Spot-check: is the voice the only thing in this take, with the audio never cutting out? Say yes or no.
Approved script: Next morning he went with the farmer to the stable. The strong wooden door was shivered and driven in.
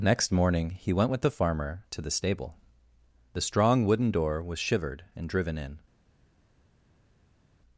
yes